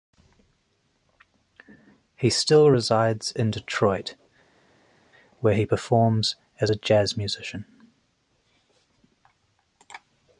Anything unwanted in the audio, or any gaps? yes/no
no